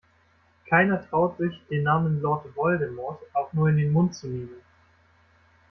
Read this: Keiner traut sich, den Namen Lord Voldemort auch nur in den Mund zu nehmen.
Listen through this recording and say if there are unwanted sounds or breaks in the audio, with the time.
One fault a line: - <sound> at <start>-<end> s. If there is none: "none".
none